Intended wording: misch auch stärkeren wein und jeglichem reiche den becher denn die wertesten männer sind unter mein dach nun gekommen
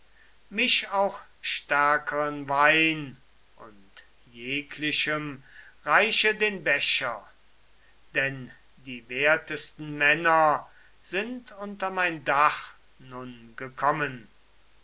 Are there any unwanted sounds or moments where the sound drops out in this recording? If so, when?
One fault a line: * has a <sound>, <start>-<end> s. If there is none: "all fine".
all fine